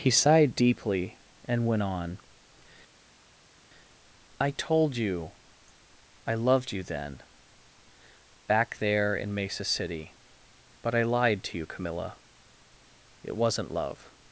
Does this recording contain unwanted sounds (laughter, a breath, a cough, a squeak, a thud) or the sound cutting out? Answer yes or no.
no